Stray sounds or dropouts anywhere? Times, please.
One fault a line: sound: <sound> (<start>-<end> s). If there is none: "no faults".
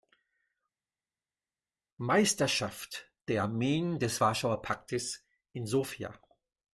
no faults